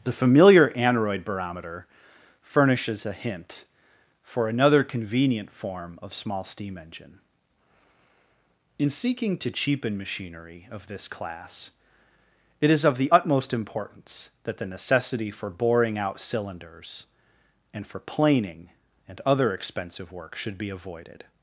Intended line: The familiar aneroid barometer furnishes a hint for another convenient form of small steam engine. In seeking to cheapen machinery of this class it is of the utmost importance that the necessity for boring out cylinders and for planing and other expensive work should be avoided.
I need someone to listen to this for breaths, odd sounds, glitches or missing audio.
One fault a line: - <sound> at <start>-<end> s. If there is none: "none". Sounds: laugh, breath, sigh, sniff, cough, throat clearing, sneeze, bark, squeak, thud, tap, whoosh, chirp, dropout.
none